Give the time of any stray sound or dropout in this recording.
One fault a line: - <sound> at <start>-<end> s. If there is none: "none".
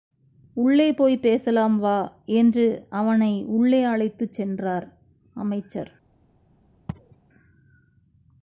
- sneeze at 6.9-7.2 s